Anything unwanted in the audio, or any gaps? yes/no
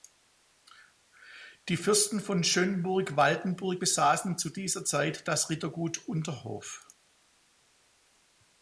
no